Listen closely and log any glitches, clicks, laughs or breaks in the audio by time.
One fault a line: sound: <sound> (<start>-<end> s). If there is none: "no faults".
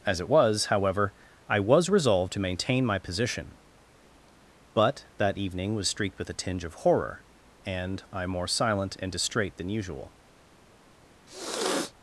sound: sniff (11.3-11.9 s)